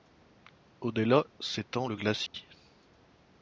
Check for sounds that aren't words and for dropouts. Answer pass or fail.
fail